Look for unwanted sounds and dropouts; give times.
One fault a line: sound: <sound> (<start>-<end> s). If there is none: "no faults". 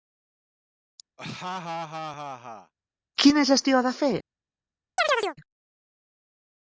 sound: laugh (1.2-2.7 s)
sound: chirp (5.0-5.4 s)